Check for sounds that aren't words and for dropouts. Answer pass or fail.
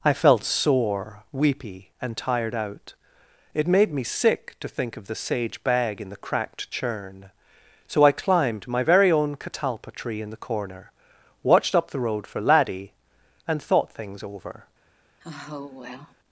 fail